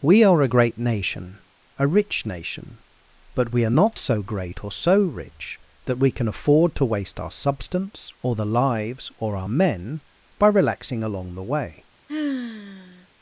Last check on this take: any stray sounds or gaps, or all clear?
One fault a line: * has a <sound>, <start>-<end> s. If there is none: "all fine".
* has a sigh, 12.1-13.1 s